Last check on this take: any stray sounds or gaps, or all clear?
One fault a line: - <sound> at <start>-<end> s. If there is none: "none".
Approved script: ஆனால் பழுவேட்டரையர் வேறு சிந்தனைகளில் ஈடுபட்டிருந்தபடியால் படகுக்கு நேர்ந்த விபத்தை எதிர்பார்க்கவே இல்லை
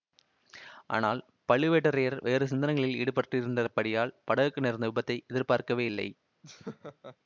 - laugh at 6.4-7.2 s